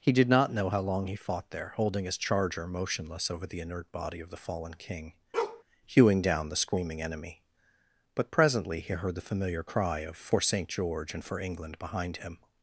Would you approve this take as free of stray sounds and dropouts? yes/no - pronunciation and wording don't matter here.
no